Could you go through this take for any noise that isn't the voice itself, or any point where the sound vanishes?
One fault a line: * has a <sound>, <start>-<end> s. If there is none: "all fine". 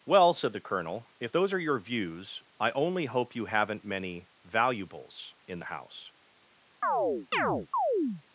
* has a chirp, 6.8-8.2 s